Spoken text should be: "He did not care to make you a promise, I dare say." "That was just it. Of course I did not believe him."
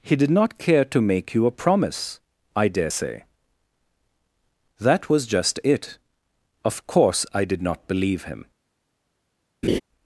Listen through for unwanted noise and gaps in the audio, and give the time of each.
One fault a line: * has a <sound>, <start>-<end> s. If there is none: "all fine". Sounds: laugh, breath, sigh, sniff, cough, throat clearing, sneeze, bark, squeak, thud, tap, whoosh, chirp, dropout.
* has a laugh, 9.6-9.8 s